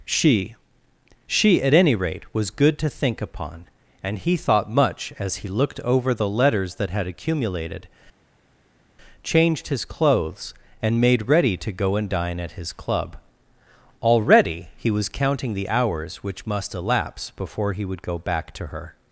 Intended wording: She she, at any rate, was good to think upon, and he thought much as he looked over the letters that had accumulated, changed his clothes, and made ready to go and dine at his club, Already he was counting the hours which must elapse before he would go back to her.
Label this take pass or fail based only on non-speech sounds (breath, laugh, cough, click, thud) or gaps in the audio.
pass